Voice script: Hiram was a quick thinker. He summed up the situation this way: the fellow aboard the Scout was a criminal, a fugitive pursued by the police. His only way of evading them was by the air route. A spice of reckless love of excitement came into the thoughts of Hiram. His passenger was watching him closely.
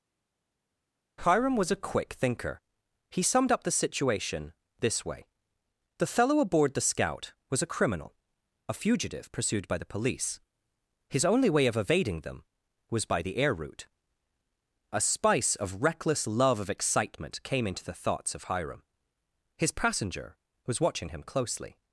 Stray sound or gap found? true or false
false